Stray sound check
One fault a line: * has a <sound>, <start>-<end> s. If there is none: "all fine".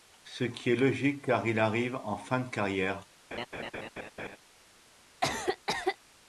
* has a laugh, 3.3-4.4 s
* has a cough, 5.2-6.0 s